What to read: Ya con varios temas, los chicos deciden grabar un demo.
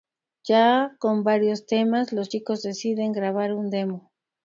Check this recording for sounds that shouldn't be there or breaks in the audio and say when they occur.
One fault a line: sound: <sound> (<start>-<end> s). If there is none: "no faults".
no faults